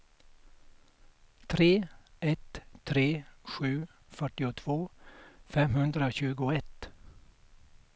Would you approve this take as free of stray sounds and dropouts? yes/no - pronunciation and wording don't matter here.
yes